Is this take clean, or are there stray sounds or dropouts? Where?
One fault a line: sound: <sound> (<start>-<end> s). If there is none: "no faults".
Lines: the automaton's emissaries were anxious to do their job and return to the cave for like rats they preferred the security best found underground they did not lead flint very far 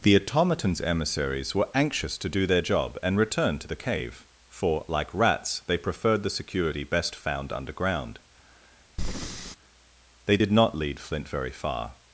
sound: breath (9.0-9.6 s)